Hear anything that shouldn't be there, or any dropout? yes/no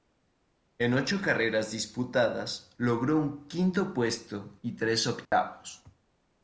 yes